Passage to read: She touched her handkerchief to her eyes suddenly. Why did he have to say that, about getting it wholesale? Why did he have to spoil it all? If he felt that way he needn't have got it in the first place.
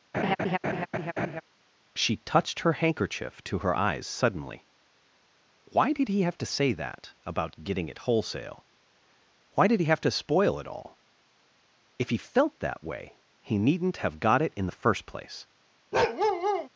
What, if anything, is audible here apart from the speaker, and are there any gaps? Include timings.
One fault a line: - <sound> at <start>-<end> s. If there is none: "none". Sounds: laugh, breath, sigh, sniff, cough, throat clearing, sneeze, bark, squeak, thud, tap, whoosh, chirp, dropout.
- laugh at 0.1-1.4 s
- bark at 15.9-16.7 s